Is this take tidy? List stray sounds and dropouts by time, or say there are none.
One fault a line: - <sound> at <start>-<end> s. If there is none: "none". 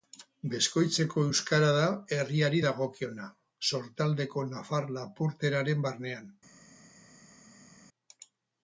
none